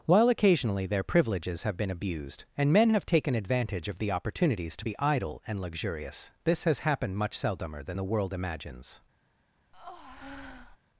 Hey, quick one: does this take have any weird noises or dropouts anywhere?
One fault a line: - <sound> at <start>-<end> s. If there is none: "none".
- breath at 9.7-10.8 s